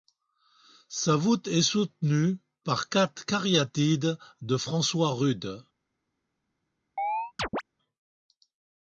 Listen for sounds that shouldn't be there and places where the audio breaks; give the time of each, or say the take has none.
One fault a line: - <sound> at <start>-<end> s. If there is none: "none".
- chirp at 7.0-7.6 s